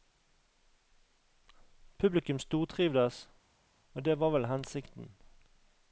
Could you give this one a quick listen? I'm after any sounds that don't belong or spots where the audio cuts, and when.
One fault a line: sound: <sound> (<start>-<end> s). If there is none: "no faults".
no faults